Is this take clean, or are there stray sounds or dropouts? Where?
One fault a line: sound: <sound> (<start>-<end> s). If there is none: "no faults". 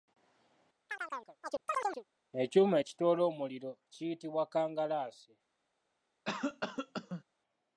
sound: chirp (0.9-2.0 s)
sound: cough (6.3-7.2 s)